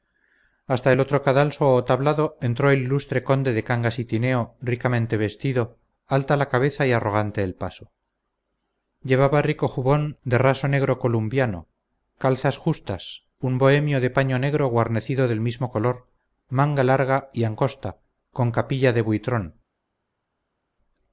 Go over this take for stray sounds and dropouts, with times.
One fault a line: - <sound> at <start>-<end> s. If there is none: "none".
none